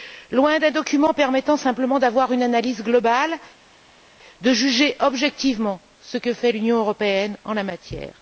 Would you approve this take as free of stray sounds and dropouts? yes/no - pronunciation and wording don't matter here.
yes